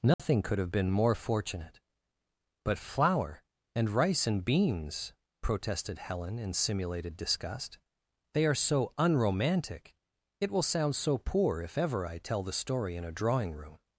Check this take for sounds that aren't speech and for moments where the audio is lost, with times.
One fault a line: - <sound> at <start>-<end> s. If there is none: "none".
- dropout at 0.1-0.2 s